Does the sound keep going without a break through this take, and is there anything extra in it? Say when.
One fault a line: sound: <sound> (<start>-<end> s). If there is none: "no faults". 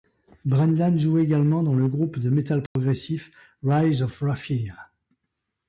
sound: dropout (2.7-2.8 s)